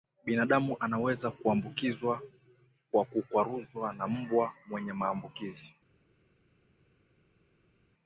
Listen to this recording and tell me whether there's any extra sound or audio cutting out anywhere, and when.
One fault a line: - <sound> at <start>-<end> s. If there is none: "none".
none